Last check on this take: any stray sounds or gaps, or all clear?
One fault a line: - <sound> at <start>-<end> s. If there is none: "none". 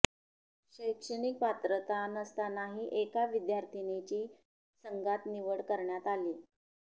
none